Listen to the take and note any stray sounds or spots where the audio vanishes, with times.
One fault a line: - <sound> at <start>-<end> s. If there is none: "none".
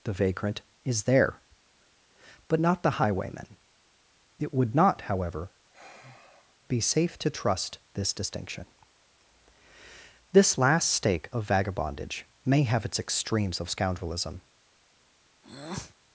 - sigh at 5.7-6.6 s
- breath at 15.4-16.0 s